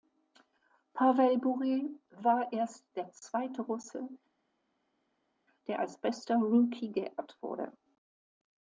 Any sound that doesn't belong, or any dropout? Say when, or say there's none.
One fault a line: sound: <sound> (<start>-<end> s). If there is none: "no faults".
no faults